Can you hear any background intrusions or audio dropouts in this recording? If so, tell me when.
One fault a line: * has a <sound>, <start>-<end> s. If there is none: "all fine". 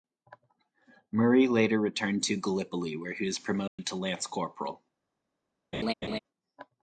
* has a dropout, 3.7-3.8 s
* has a laugh, 5.7-6.2 s